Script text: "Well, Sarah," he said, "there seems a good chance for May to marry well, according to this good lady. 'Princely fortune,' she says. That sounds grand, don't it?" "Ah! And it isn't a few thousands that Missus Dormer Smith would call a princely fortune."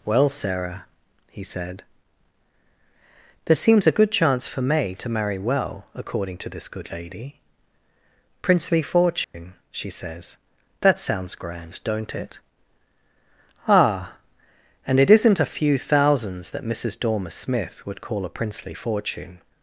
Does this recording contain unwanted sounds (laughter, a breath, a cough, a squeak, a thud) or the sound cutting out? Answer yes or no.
yes